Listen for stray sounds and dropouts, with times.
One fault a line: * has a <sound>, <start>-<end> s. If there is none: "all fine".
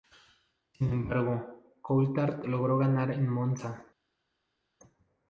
all fine